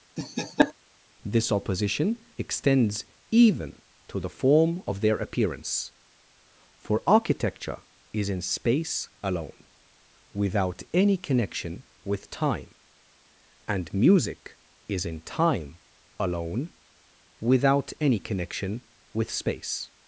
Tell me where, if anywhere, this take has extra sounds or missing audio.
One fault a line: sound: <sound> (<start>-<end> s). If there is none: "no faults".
sound: laugh (0.2-0.7 s)